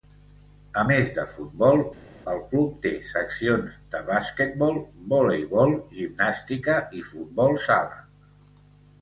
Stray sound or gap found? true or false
false